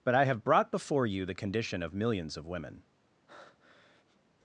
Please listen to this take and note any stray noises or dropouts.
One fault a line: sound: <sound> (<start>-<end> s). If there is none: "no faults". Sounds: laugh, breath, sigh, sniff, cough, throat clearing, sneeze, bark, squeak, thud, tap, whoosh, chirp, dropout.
sound: breath (3.3-4.2 s)